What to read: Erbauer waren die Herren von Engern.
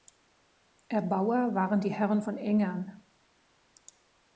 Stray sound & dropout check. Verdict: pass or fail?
pass